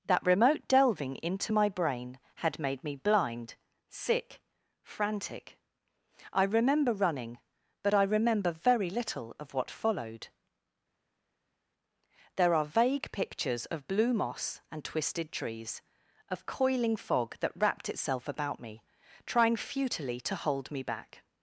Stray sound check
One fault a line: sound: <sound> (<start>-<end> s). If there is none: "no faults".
no faults